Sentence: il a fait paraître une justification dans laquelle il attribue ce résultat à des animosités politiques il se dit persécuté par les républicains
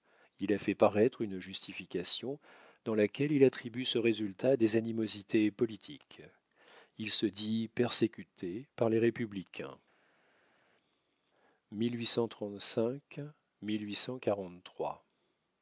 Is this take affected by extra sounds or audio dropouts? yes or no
no